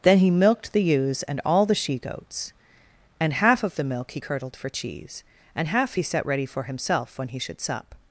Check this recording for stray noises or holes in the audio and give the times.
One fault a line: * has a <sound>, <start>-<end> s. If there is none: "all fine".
all fine